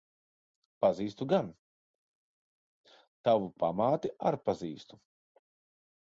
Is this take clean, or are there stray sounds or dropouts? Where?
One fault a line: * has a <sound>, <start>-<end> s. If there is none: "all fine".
all fine